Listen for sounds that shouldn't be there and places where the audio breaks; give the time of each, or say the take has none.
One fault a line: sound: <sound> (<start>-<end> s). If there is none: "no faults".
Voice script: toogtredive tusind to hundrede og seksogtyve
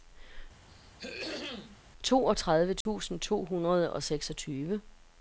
sound: throat clearing (0.7-1.8 s)
sound: dropout (2.8-2.9 s)